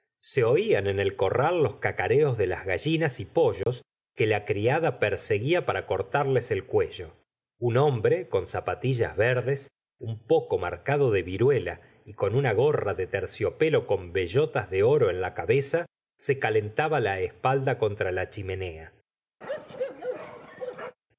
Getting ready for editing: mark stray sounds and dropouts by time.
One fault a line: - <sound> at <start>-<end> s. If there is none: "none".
- dropout at 3.6-3.7 s
- bark at 19.4-21.0 s